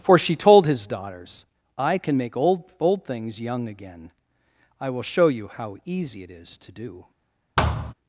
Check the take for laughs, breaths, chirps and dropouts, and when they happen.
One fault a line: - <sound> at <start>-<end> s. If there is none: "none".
- thud at 7.6-7.9 s